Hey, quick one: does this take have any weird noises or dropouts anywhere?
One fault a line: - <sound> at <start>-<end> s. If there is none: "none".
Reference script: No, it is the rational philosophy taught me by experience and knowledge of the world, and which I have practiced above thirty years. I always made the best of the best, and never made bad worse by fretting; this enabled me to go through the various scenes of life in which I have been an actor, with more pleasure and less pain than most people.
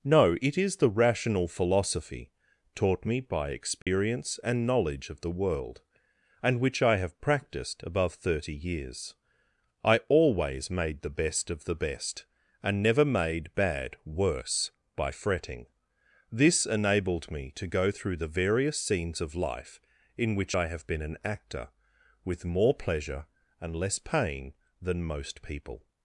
- dropout at 3.8-3.9 s